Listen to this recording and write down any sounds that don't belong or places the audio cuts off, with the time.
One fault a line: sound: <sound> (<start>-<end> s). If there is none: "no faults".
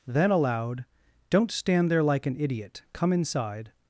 no faults